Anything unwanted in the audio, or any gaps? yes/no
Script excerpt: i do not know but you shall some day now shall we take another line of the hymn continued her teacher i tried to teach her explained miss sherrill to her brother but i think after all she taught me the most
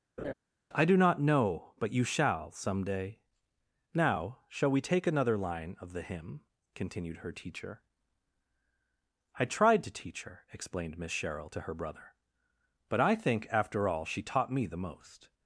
yes